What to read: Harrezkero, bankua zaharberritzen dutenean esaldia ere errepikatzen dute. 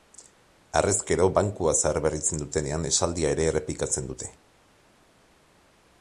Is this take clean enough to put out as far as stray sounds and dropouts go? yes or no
yes